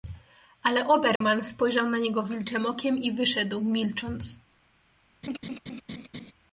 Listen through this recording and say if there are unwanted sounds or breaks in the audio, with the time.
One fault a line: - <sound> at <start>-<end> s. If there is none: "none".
- dropout at 1.2-1.2 s
- laugh at 5.2-6.3 s